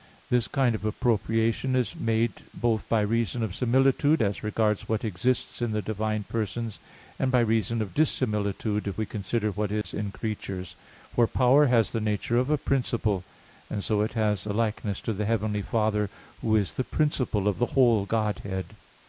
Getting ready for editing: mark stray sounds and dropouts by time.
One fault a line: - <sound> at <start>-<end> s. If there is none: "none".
- dropout at 9.8-9.8 s